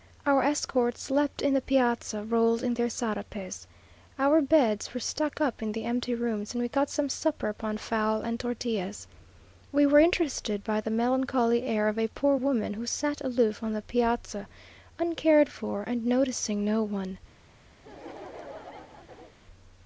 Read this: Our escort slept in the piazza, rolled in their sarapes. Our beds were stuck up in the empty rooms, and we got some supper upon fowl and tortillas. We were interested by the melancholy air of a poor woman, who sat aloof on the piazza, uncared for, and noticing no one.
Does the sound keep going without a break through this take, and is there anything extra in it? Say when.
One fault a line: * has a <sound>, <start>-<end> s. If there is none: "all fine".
* has a laugh, 17.8-19.4 s